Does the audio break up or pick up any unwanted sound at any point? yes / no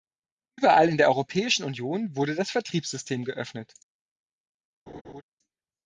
yes